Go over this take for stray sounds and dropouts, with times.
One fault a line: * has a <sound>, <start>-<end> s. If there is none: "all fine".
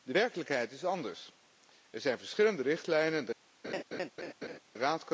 * has a laugh, 3.6-4.6 s